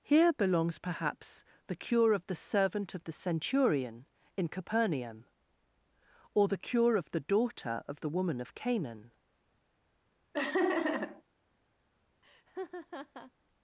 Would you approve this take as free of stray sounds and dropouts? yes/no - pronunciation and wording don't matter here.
no